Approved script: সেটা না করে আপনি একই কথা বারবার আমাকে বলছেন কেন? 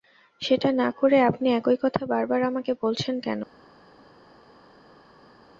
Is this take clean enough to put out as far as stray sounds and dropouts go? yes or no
yes